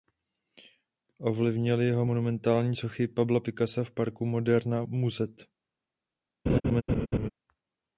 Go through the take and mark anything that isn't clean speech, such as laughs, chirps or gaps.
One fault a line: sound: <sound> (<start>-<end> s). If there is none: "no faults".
sound: laugh (6.5-7.3 s)